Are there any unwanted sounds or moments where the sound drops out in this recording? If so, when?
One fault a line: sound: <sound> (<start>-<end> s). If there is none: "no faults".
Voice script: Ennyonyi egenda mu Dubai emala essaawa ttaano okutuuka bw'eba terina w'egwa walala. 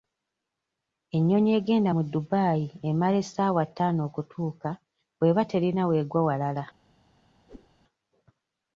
sound: whoosh (7.5-7.7 s)